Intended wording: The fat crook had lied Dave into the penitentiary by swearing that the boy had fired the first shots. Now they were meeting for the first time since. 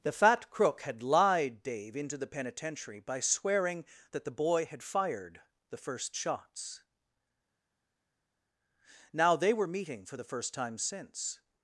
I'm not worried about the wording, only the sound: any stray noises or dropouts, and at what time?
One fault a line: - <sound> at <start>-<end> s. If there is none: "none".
none